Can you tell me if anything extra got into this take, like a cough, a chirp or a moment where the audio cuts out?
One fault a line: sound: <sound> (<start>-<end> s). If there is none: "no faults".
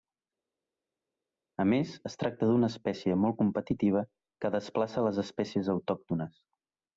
no faults